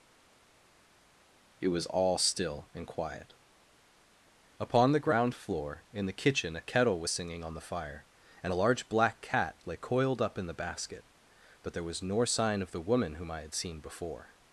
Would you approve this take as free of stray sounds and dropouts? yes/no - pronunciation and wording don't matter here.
yes